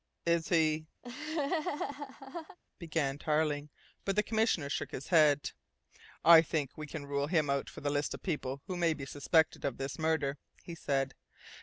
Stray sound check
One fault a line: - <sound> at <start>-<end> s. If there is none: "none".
- laugh at 1.0-2.6 s